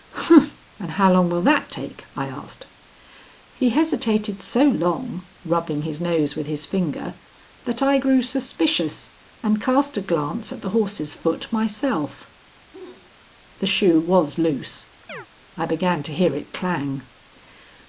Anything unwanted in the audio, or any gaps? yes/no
yes